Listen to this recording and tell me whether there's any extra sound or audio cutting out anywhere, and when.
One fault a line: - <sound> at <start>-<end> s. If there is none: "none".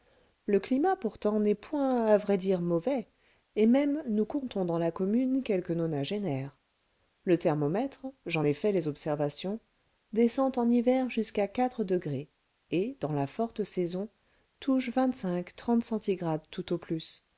none